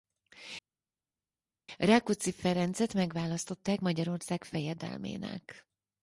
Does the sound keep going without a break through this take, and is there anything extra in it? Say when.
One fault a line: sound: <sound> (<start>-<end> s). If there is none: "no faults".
no faults